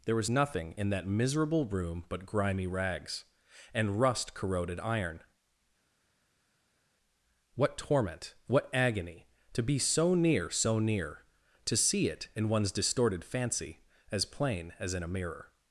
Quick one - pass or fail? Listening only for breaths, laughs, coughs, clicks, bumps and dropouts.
pass